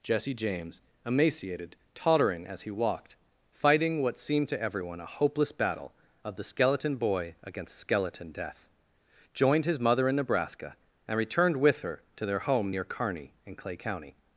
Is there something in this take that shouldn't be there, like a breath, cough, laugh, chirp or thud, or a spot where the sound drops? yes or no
no